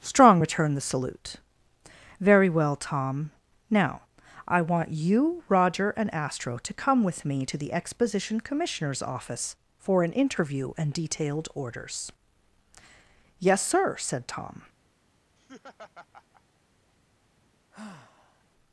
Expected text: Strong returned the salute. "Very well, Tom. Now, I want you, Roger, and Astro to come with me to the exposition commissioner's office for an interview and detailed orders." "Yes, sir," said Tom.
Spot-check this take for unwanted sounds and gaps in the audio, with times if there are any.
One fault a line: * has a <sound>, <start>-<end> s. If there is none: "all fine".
* has a laugh, 15.4-16.4 s
* has a sigh, 17.7-18.4 s